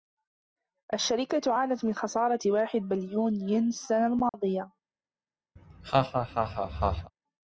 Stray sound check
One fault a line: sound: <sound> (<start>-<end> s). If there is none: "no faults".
sound: dropout (4.3-4.3 s)
sound: laugh (5.6-7.1 s)